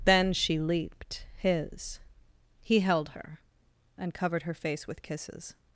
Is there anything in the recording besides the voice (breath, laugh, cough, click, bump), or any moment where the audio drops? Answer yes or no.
no